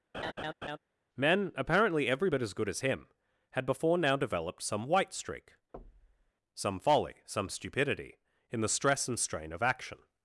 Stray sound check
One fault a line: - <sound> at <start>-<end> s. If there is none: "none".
- laugh at 0.1-0.8 s
- thud at 5.7-6.3 s